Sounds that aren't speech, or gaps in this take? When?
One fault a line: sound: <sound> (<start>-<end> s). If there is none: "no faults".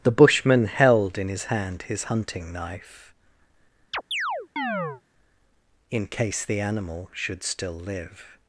sound: chirp (3.9-5.0 s)